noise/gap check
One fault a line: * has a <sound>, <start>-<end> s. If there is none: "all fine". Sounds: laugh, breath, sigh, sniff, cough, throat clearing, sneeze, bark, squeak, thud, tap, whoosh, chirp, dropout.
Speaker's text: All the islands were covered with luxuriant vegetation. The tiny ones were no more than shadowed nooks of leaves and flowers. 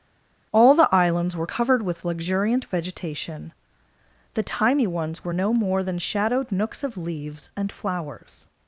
all fine